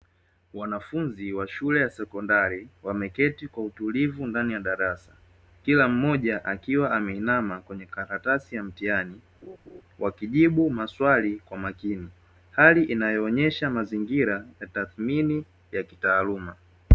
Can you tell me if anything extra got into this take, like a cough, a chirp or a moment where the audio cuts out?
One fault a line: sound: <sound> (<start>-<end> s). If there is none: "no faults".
sound: laugh (9.4-9.8 s)